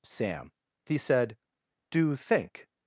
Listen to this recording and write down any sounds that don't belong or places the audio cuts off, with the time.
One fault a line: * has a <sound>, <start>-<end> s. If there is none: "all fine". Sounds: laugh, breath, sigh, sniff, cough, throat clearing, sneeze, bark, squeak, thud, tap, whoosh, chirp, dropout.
all fine